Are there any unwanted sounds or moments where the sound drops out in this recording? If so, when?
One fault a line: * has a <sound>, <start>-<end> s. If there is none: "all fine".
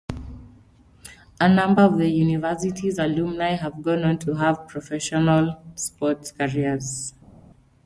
all fine